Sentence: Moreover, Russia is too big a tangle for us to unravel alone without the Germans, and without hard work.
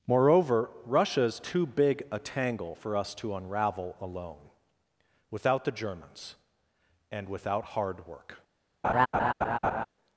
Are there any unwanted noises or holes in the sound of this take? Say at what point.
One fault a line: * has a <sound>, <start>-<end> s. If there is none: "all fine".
* has a laugh, 8.8-9.9 s